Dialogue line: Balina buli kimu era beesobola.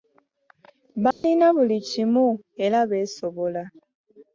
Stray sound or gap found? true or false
true